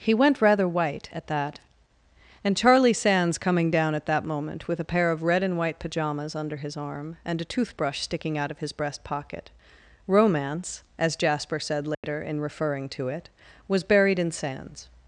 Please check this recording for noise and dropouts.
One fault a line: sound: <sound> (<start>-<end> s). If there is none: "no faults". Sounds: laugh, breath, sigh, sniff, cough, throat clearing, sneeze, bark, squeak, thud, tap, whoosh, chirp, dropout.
sound: dropout (11.9-12.0 s)